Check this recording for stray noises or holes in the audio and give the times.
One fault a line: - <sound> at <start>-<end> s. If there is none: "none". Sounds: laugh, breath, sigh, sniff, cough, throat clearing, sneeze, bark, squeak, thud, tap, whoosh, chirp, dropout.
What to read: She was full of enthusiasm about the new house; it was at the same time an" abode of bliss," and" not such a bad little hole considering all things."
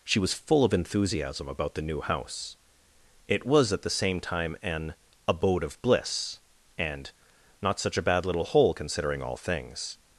none